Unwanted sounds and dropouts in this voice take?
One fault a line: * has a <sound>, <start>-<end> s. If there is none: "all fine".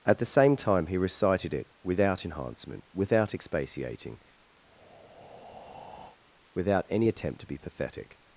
* has a breath, 4.6-6.2 s